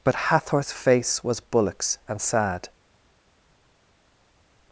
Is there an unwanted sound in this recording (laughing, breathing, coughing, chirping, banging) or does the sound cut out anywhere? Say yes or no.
no